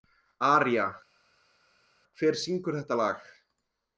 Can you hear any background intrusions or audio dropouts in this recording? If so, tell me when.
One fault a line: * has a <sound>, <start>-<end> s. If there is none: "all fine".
all fine